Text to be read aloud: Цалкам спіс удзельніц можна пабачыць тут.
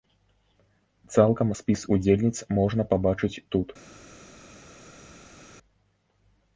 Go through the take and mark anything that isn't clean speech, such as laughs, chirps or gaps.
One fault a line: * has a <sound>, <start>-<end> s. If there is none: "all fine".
all fine